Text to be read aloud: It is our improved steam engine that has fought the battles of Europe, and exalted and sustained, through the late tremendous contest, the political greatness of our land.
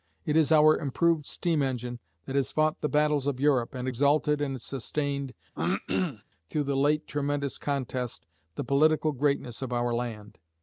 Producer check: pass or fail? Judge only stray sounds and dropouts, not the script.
fail